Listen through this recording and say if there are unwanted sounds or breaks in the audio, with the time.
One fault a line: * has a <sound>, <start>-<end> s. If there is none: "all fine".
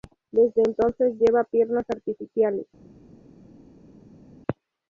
all fine